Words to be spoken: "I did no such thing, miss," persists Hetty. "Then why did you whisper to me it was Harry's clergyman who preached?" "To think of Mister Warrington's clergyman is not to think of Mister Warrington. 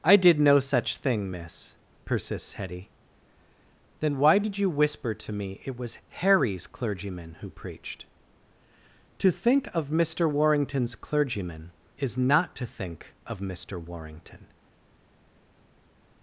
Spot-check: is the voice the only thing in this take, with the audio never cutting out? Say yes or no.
yes